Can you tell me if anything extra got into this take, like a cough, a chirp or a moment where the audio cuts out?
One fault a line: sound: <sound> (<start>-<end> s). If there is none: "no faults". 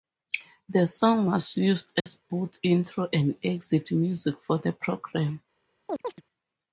sound: dropout (2.0-2.1 s)
sound: chirp (5.9-6.2 s)